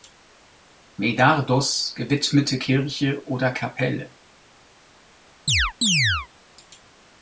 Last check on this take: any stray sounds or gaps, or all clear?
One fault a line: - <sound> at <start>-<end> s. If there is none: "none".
- chirp at 5.5-6.3 s